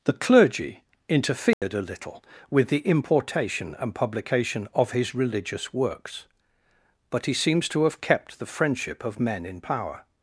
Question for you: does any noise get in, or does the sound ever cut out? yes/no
yes